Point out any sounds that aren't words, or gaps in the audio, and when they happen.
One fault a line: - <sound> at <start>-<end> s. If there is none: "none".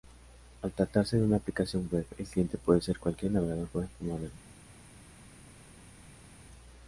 none